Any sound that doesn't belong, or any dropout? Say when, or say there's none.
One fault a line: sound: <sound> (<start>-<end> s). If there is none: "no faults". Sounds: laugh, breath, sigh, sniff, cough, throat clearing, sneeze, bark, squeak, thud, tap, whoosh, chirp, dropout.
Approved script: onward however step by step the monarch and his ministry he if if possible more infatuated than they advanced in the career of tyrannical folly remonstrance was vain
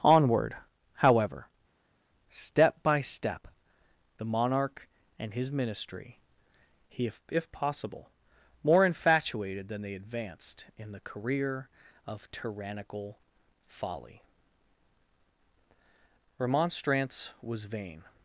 no faults